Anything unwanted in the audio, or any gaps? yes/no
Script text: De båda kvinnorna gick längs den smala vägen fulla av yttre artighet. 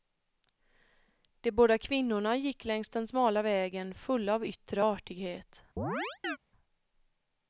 yes